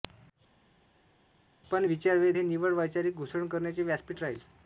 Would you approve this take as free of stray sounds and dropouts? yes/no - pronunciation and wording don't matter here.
yes